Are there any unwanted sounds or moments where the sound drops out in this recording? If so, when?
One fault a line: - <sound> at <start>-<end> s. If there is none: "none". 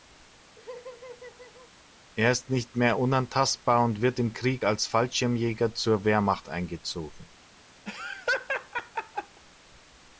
- laugh at 0.6-1.7 s
- laugh at 7.9-9.4 s